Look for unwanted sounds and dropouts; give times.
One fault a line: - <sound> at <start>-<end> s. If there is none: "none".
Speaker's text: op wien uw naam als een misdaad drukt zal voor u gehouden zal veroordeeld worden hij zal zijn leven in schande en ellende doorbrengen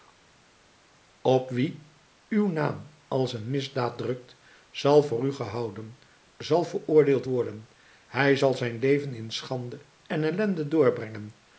none